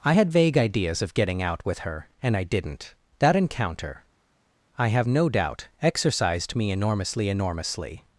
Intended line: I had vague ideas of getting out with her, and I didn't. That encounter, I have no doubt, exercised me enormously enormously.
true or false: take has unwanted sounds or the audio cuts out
false